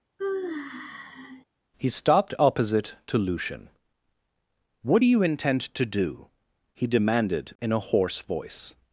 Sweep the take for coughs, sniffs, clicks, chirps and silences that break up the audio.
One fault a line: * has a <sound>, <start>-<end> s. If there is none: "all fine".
* has a sigh, 0.2-1.4 s